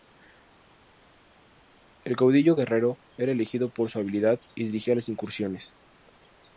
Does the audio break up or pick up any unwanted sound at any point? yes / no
no